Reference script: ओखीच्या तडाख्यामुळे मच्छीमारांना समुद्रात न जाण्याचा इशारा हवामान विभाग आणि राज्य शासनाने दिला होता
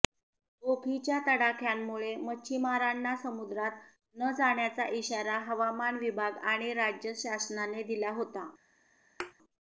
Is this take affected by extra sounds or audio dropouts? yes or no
yes